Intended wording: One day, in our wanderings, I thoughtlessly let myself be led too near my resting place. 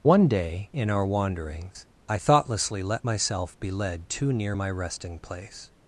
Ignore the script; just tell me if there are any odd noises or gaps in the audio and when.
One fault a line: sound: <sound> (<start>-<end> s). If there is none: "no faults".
no faults